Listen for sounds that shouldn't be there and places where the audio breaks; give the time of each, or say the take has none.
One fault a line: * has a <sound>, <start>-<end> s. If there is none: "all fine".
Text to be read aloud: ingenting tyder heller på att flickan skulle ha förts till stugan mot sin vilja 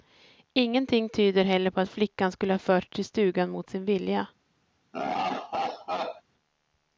* has a laugh, 4.9-6.2 s